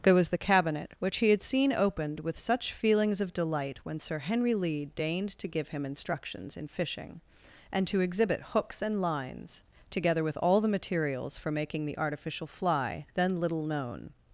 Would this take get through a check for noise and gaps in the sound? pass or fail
pass